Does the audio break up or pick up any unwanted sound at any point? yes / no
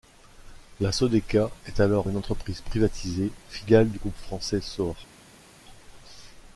no